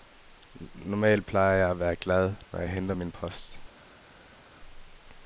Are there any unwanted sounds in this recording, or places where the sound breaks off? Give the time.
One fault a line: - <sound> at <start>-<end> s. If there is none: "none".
none